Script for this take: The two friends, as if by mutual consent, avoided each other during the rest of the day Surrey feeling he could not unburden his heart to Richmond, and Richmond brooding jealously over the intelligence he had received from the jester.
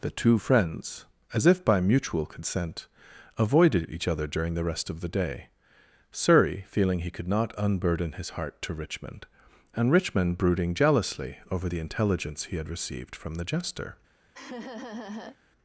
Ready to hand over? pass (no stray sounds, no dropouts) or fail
fail